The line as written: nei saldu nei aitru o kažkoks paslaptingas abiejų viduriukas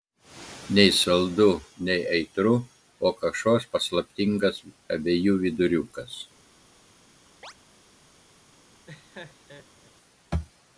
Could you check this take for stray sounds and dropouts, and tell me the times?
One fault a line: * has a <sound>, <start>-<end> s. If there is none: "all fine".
* has a chirp, 7.4-7.5 s
* has a laugh, 8.9-9.9 s